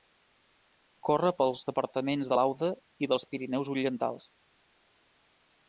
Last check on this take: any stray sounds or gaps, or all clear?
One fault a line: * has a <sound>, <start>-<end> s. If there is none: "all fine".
all fine